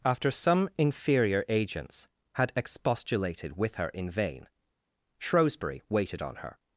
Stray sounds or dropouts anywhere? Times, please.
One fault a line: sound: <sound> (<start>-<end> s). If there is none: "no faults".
no faults